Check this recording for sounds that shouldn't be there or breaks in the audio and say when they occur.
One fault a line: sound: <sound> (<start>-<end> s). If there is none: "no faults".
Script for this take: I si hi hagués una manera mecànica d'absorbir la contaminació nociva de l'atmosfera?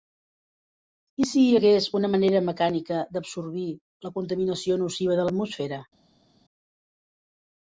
no faults